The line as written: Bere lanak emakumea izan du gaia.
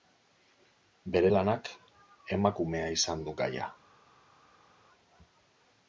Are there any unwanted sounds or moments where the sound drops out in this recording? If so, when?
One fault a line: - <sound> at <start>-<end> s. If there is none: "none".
none